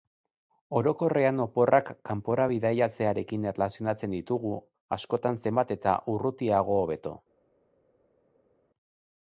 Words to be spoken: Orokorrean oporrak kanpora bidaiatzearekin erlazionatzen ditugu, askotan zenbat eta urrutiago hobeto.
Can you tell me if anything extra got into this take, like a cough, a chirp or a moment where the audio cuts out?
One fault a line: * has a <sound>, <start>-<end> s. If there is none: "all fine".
all fine